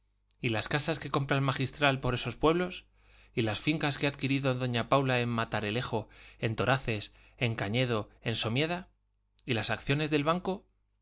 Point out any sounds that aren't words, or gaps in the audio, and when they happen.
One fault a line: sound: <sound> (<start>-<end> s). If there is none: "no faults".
no faults